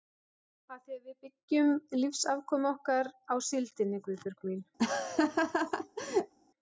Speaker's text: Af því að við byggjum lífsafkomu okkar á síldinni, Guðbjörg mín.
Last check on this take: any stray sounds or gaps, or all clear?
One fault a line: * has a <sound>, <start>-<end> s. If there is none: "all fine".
* has a laugh, 4.8-6.3 s